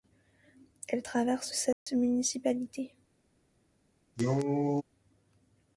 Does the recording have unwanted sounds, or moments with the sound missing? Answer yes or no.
yes